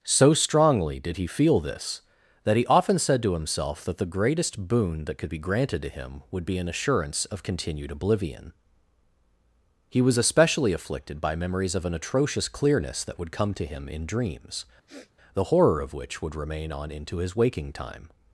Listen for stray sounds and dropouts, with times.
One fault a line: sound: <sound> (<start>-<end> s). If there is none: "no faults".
sound: sniff (14.9-15.1 s)